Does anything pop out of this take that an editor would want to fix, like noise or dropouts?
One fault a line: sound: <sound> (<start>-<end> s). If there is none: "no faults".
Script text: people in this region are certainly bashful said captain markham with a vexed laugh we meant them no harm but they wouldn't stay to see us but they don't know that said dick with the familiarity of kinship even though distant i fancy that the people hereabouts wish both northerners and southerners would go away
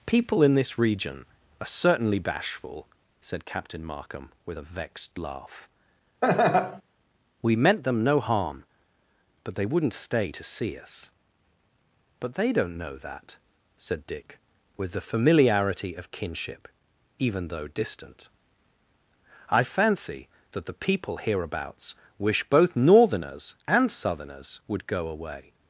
sound: laugh (6.2-6.8 s)